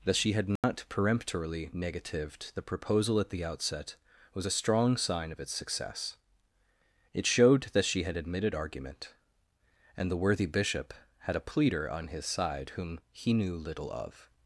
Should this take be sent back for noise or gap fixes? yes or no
yes